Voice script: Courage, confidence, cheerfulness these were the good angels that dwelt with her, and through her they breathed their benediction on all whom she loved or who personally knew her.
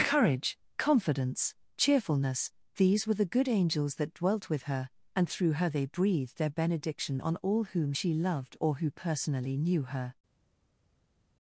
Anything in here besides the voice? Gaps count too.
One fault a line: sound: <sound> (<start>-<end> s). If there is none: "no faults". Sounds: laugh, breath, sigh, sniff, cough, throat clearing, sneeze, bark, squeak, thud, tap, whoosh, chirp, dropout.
no faults